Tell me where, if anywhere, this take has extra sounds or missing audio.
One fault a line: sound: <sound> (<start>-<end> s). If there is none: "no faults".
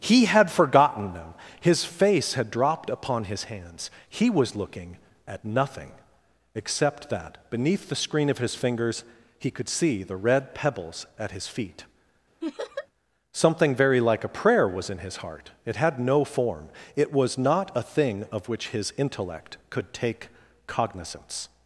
sound: laugh (12.4-12.9 s)